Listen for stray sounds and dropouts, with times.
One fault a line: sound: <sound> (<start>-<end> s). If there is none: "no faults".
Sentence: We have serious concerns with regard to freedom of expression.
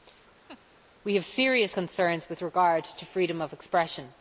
sound: laugh (0.5-0.6 s)